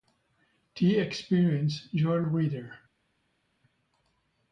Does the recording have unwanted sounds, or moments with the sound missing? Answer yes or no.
no